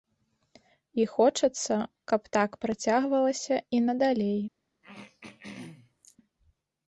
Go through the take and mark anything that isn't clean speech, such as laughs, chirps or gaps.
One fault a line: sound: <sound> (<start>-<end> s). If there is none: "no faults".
sound: throat clearing (4.8-6.2 s)